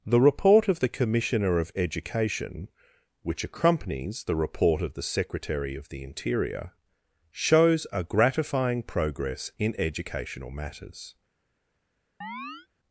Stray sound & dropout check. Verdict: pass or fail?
fail